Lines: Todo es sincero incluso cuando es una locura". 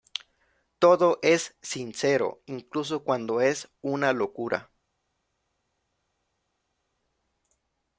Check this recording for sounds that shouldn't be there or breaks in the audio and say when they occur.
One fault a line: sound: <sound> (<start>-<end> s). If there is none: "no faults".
no faults